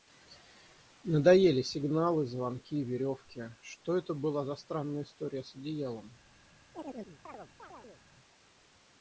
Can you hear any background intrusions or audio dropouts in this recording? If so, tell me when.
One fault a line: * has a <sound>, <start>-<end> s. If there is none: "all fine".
* has a chirp, 6.7-8.0 s